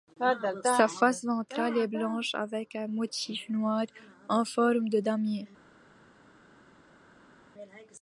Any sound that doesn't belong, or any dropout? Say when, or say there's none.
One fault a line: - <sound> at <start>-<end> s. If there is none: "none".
none